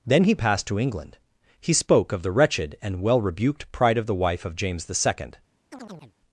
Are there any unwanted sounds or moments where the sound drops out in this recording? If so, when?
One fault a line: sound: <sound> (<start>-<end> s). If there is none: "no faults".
sound: chirp (5.7-6.1 s)